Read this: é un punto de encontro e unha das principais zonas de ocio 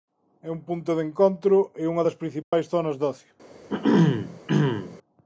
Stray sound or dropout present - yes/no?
yes